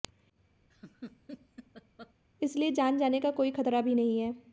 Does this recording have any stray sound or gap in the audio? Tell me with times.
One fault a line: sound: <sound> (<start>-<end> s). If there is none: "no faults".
sound: laugh (0.7-2.1 s)